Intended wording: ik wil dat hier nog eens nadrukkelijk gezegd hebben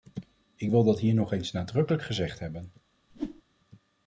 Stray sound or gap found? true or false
true